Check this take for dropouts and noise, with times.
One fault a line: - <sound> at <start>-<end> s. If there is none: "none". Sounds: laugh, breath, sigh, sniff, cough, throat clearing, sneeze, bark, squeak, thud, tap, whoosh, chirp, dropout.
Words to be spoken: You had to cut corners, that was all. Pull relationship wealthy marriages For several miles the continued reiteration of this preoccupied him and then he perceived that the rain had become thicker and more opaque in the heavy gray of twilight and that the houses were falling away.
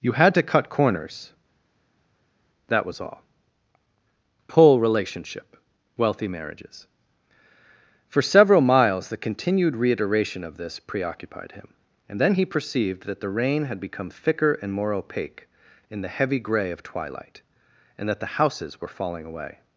none